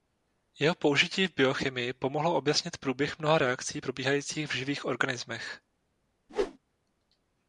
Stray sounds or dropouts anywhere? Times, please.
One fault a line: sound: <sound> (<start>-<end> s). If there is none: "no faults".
sound: whoosh (6.3-6.6 s)